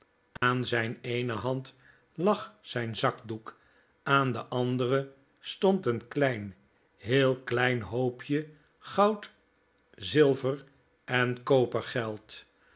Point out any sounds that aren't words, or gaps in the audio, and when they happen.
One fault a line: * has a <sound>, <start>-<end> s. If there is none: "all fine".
* has a dropout, 0.4-0.4 s